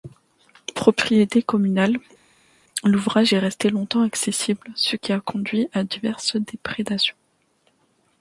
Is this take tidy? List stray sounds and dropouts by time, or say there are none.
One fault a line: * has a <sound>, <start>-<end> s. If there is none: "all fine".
all fine